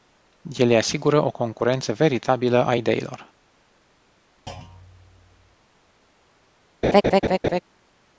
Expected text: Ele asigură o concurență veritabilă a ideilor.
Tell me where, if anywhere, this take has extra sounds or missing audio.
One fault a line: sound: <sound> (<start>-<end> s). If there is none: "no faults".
sound: thud (4.5-5.6 s)
sound: laugh (6.8-7.6 s)